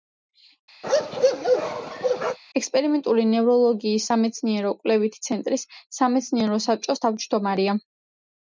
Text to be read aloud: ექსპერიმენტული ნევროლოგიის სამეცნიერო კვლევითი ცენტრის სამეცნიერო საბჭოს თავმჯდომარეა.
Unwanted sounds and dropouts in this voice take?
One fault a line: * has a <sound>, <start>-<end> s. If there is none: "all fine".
* has a bark, 0.8-2.4 s